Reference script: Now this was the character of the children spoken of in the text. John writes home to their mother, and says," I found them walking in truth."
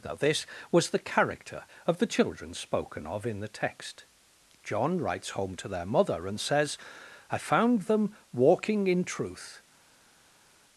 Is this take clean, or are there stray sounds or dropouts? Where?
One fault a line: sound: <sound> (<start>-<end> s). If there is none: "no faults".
no faults